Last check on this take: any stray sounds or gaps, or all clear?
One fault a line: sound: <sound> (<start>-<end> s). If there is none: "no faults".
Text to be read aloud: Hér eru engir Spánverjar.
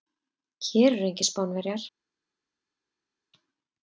no faults